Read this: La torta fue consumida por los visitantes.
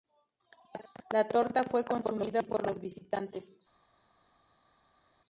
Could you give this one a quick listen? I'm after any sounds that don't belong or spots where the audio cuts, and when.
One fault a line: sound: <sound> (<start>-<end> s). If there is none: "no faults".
no faults